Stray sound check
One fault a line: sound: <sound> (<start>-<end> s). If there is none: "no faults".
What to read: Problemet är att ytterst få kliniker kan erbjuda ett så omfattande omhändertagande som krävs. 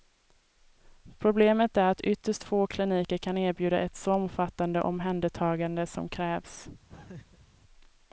sound: laugh (6.9-7.5 s)